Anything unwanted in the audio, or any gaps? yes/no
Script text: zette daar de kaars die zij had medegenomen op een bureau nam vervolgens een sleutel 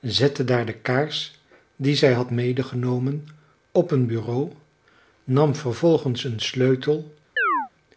yes